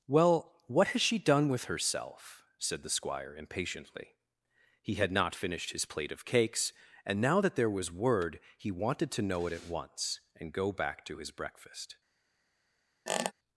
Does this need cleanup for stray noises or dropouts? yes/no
yes